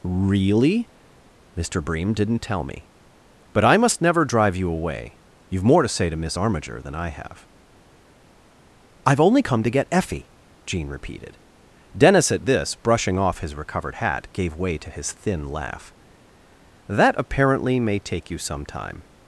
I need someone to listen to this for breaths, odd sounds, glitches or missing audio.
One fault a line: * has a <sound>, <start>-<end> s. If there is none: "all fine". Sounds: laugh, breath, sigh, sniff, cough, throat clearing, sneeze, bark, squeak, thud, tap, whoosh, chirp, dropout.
all fine